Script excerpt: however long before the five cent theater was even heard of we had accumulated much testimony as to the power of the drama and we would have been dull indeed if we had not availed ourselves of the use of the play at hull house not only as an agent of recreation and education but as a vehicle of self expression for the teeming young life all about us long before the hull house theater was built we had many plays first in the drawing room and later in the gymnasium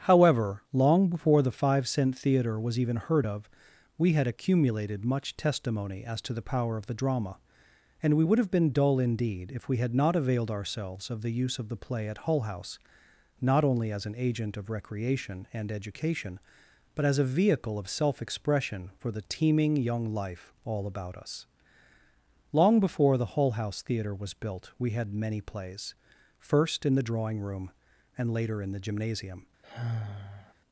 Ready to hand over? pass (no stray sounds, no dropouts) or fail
fail